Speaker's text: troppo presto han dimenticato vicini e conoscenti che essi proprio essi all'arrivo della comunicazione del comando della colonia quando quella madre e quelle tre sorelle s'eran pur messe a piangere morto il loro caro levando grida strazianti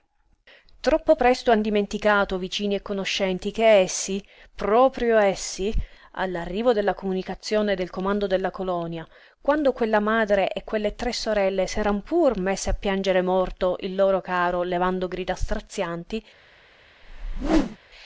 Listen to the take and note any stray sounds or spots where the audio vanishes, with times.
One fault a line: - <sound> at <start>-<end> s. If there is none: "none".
- whoosh at 17.0-17.8 s